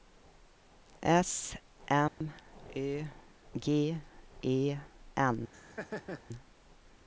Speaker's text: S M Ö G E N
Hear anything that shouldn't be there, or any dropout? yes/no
yes